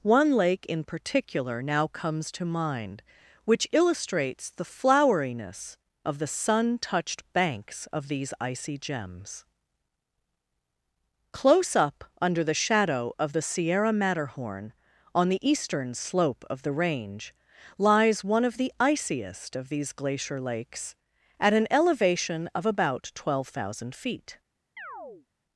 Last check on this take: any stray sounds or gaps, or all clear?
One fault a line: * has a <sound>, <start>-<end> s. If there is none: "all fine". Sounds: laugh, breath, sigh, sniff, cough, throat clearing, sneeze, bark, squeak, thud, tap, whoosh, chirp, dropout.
* has a chirp, 24.8-25.3 s